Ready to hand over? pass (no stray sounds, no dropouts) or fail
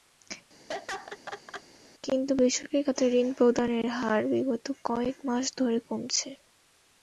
fail